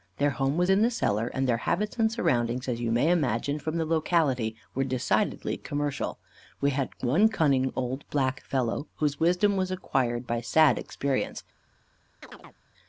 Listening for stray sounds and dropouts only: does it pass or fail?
fail